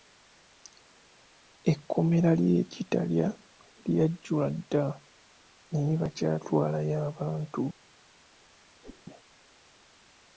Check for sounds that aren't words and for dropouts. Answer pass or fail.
fail